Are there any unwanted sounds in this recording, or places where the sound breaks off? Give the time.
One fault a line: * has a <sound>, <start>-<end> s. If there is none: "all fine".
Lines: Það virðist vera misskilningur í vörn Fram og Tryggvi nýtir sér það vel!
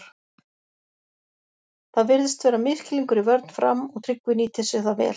all fine